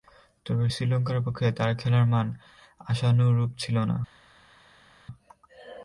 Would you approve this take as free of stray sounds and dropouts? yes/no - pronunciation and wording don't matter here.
yes